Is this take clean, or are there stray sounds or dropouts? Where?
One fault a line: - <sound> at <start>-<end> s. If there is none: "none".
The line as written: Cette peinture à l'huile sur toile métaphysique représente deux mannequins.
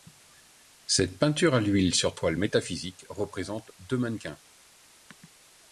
none